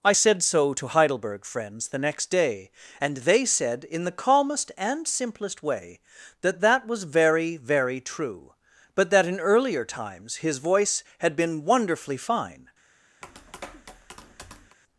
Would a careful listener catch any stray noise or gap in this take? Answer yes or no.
yes